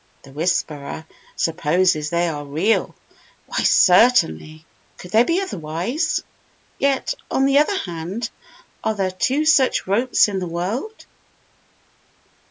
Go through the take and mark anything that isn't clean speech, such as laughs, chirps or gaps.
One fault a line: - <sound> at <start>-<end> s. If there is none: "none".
none